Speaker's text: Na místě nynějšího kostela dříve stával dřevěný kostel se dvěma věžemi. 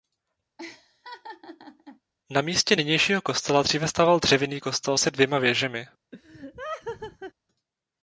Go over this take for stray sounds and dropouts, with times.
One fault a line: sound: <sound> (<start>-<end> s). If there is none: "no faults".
sound: laugh (0.6-2.0 s)
sound: laugh (6.1-7.3 s)